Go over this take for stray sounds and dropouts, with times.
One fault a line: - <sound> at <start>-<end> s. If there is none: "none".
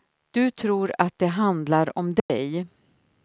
- dropout at 2.2-2.3 s